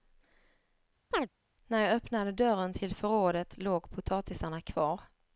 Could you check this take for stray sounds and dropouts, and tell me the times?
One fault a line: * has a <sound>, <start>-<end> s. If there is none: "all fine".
* has a chirp, 1.1-1.3 s